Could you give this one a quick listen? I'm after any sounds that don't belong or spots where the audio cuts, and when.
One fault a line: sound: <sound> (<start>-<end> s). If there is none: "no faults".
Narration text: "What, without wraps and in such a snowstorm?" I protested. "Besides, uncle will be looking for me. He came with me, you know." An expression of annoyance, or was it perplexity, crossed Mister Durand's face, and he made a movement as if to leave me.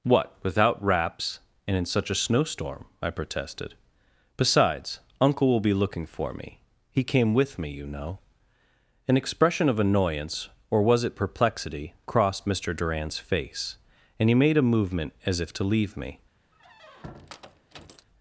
sound: squeak (16.5-18.1 s)